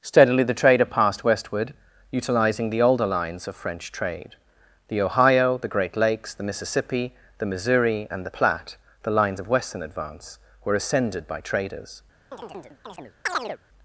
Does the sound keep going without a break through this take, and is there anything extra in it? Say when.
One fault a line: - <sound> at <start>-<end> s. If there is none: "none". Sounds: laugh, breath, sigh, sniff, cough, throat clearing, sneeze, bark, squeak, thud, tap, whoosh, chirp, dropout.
- chirp at 12.3-13.6 s